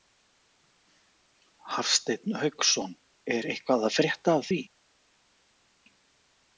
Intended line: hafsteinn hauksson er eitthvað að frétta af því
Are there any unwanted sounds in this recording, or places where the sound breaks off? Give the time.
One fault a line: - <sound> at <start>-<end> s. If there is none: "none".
none